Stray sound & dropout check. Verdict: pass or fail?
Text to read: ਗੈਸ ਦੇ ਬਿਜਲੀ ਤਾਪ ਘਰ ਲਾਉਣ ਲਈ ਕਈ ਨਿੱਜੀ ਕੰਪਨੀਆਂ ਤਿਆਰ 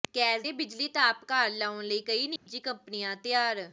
fail